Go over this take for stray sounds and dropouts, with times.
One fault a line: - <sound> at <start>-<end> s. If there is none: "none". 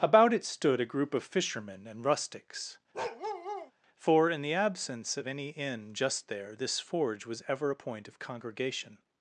- bark at 2.9-3.7 s